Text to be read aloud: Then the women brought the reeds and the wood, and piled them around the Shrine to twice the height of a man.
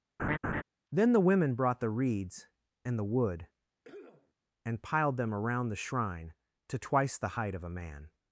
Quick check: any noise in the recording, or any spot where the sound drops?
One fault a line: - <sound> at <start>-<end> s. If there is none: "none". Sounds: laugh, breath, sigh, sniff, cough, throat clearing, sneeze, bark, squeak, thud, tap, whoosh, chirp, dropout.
- laugh at 0.2-0.6 s
- cough at 3.8-4.3 s